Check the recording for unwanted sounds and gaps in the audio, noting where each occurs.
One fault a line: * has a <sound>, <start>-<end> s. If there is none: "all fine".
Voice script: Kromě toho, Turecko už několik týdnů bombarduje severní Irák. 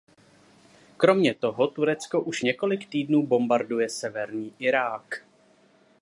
all fine